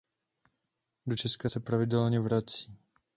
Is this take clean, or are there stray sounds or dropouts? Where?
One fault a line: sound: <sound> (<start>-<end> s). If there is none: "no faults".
no faults